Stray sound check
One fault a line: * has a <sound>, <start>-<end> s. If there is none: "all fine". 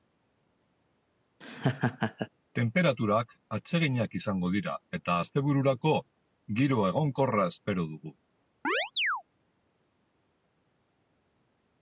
* has a laugh, 1.4-2.3 s
* has a chirp, 8.6-9.2 s